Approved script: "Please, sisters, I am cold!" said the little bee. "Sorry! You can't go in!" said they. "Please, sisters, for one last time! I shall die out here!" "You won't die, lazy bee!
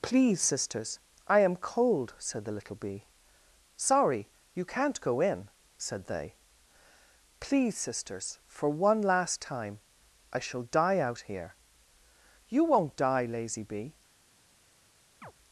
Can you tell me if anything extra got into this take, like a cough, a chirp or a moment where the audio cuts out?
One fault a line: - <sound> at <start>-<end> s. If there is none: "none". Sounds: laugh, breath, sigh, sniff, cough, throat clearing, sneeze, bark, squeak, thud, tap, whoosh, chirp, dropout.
- chirp at 15.2-15.3 s